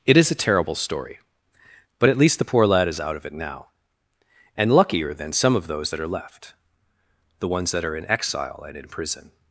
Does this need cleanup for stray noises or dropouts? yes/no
no